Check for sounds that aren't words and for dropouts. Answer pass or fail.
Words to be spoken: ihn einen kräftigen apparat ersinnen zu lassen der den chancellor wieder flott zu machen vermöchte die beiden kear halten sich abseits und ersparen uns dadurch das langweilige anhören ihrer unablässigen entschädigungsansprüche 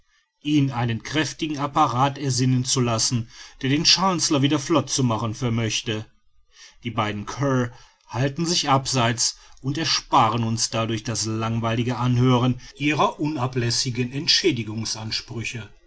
pass